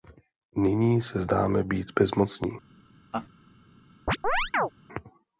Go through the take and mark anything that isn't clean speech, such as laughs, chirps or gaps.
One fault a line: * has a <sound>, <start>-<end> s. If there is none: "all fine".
* has a laugh, 3.1-3.3 s
* has a chirp, 4.1-4.7 s